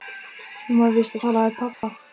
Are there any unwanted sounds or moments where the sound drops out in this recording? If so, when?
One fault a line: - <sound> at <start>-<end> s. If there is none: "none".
- dropout at 1.7-1.8 s